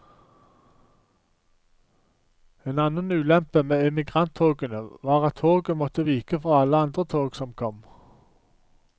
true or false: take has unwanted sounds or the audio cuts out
false